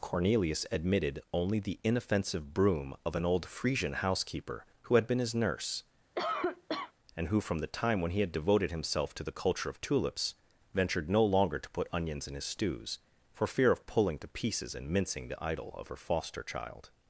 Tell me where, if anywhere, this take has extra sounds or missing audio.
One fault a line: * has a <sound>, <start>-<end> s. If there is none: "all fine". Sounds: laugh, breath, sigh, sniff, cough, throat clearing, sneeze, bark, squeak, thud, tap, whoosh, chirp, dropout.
* has a cough, 6.2-6.9 s